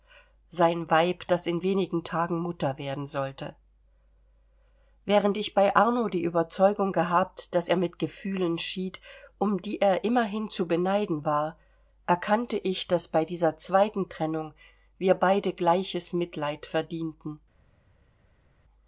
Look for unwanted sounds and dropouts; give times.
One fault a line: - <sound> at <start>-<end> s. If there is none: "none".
none